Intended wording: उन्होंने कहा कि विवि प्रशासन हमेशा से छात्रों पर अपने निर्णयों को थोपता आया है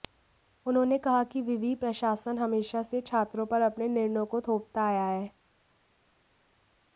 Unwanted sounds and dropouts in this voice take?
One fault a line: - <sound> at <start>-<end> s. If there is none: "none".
none